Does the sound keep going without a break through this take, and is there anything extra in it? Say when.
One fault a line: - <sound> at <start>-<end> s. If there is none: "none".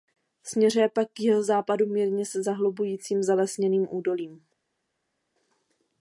none